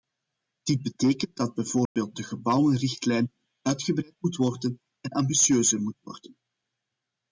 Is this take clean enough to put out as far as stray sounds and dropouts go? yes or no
no